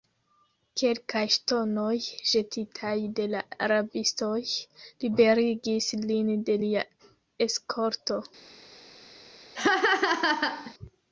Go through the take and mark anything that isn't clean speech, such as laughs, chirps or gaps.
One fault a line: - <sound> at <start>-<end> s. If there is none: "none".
- laugh at 9.6-10.7 s